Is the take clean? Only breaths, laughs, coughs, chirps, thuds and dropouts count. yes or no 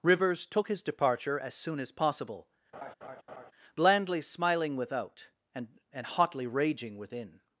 no